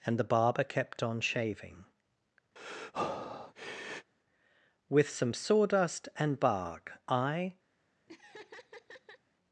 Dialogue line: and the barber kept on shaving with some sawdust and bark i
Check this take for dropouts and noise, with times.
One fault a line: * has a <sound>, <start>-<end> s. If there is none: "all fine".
* has a breath, 2.6-4.1 s
* has a laugh, 8.1-9.2 s